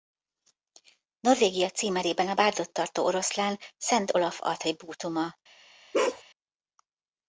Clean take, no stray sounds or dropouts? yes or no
no